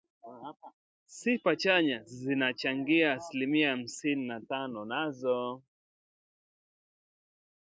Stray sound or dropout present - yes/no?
no